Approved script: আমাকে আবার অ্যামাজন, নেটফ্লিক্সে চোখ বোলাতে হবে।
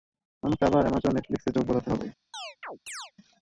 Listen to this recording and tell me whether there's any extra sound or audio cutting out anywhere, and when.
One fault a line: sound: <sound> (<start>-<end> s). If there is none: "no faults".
sound: chirp (2.3-3.1 s)